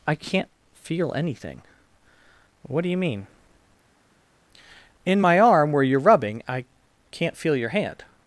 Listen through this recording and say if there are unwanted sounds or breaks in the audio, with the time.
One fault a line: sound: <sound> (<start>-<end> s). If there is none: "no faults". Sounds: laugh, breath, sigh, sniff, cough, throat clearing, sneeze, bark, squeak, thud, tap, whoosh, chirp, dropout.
no faults